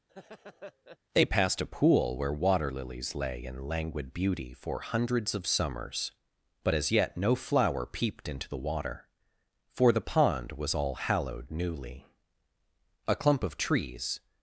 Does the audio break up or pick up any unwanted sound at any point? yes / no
yes